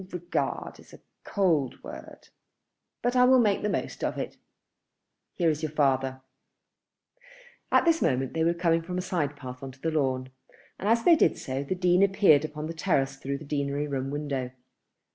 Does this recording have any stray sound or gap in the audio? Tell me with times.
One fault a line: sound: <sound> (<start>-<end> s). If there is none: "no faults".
no faults